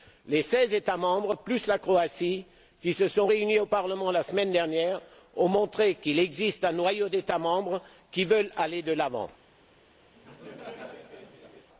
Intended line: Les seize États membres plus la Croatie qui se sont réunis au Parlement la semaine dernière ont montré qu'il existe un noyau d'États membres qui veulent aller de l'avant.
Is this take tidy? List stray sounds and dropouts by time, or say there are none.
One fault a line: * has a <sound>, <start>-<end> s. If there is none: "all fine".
* has a laugh, 10.1-11.7 s